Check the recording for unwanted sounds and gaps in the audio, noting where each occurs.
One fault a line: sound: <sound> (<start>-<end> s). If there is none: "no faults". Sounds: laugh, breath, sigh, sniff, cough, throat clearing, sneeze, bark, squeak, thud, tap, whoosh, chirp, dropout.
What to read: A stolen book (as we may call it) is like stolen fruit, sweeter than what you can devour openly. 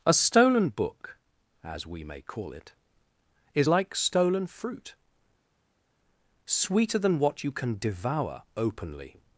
no faults